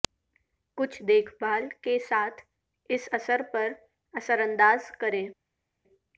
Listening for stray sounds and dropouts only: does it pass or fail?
pass